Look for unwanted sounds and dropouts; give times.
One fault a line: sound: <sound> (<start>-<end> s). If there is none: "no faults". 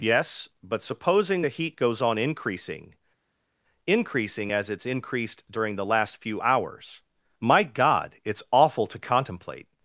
no faults